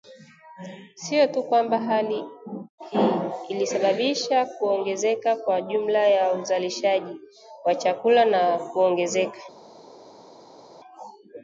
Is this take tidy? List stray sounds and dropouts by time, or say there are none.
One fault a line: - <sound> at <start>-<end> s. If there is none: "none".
none